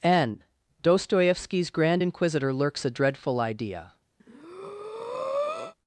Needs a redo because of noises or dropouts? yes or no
yes